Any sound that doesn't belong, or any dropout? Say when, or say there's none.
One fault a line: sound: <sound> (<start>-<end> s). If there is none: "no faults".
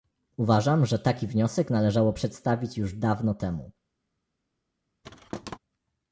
sound: thud (5.0-5.6 s)